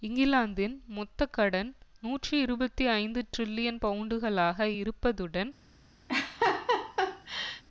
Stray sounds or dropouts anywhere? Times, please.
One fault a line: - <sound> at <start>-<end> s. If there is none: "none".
- laugh at 6.1-7.6 s